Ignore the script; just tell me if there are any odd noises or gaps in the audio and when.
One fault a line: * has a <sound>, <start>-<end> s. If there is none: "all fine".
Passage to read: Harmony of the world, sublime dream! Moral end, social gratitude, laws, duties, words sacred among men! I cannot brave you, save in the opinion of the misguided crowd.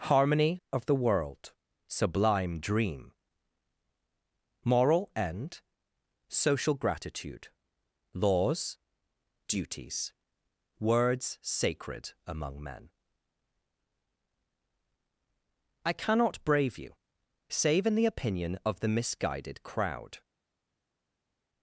all fine